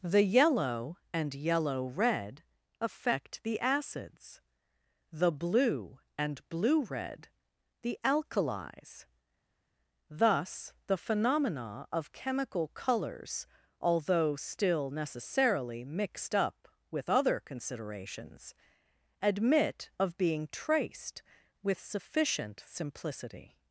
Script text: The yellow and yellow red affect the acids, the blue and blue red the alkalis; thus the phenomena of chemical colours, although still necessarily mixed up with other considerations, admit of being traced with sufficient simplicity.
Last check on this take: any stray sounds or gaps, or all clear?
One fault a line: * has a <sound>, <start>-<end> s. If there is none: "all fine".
all fine